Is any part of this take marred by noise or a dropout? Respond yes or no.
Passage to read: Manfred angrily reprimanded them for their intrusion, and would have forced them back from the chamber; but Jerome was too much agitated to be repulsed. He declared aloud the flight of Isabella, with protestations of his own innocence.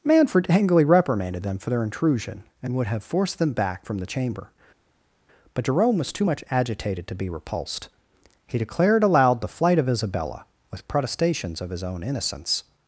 no